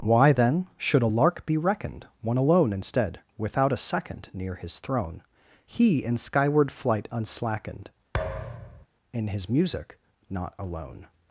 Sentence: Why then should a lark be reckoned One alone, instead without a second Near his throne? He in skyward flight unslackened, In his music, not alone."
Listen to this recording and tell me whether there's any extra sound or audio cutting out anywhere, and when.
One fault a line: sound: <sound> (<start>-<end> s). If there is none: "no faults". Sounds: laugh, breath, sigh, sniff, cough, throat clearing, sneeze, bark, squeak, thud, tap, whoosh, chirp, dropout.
sound: thud (8.1-8.9 s)